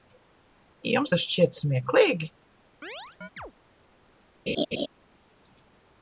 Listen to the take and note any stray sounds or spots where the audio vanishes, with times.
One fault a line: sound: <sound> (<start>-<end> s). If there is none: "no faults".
sound: chirp (2.8-3.5 s)
sound: laugh (4.5-4.9 s)